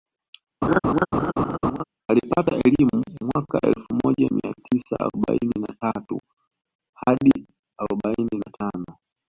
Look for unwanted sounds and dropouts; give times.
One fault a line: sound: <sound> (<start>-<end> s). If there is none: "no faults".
sound: laugh (0.6-1.8 s)